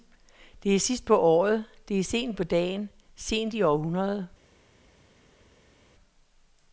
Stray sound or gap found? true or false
false